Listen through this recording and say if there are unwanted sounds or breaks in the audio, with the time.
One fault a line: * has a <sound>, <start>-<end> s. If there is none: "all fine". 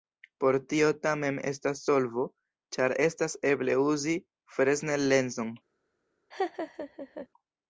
* has a laugh, 6.3-7.3 s